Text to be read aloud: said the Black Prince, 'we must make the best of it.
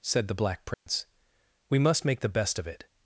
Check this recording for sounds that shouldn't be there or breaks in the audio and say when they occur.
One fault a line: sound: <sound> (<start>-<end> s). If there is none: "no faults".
sound: dropout (0.7-0.9 s)